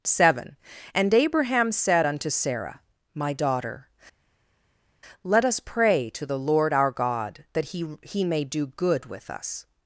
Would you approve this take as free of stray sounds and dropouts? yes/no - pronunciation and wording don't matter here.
yes